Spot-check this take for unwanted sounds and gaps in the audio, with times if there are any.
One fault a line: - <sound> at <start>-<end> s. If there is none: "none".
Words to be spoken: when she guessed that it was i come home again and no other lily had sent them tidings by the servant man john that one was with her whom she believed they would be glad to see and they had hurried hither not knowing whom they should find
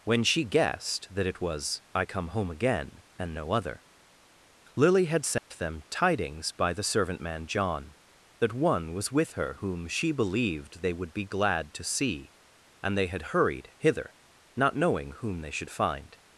- dropout at 5.4-5.5 s